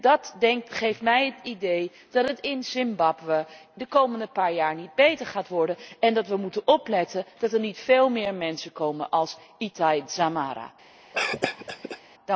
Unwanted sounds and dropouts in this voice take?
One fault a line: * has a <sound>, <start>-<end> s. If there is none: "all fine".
* has a cough, 11.1-12.0 s